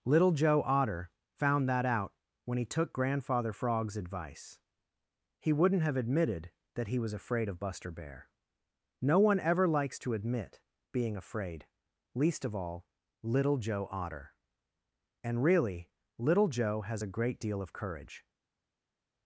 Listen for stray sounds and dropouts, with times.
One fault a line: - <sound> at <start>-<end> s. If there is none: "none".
none